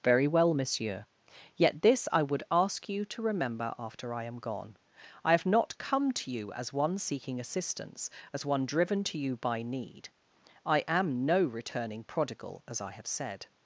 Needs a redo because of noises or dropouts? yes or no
no